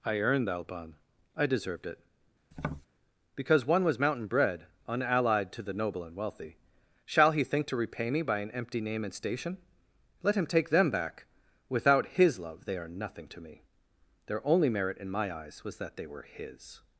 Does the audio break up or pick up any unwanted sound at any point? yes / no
yes